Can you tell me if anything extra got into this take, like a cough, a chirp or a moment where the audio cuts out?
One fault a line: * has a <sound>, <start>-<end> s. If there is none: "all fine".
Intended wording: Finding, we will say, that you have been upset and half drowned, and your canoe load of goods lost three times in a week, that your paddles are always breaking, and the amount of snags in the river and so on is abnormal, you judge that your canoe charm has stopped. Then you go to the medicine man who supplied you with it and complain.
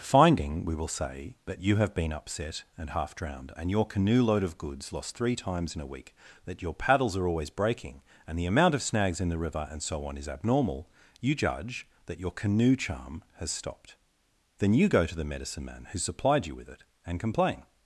all fine